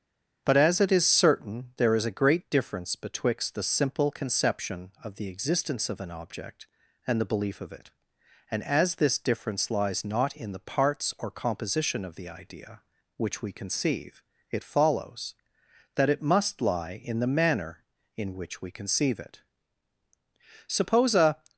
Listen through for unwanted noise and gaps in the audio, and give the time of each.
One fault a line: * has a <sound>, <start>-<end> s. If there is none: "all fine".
all fine